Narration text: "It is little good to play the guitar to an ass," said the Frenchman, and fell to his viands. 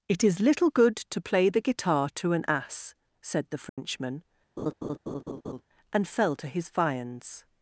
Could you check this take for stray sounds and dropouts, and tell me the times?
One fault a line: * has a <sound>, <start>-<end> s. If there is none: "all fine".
* has a dropout, 3.7-3.8 s
* has a laugh, 4.6-5.6 s